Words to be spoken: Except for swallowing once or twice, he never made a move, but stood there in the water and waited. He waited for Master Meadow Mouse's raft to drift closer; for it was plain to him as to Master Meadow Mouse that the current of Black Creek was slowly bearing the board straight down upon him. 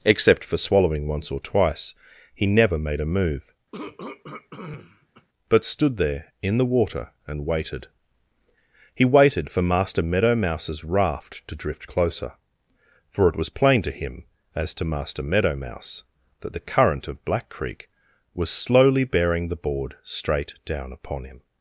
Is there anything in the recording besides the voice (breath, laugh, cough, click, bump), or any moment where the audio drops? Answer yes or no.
yes